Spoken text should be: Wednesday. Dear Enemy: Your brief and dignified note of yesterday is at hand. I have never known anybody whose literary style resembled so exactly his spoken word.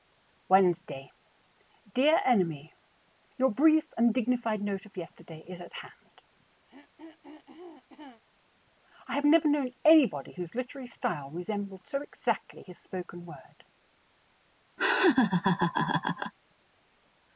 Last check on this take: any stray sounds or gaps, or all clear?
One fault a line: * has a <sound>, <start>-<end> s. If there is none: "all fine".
* has a throat clearing, 6.7-8.2 s
* has a laugh, 14.8-16.3 s